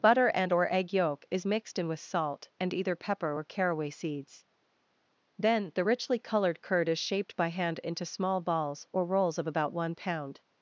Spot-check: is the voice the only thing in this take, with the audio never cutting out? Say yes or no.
yes